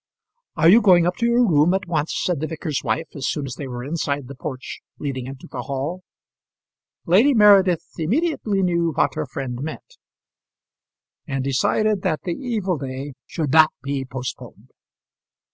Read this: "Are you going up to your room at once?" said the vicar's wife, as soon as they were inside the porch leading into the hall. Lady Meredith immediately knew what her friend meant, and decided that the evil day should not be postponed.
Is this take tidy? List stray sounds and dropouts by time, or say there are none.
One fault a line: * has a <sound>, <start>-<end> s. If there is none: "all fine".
all fine